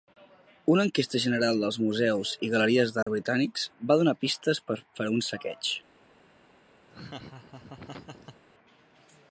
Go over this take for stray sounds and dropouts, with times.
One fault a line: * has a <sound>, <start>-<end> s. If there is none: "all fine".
* has a dropout, 3.0-3.1 s
* has a laugh, 6.9-8.4 s